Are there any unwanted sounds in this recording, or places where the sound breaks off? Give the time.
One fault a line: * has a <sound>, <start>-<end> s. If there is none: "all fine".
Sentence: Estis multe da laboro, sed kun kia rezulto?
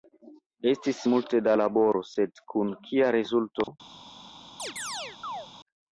* has a dropout, 3.6-3.7 s
* has a chirp, 4.6-5.5 s